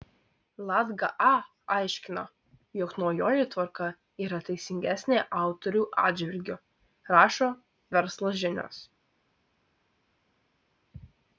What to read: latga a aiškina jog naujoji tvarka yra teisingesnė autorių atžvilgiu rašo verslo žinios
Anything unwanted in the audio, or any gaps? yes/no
no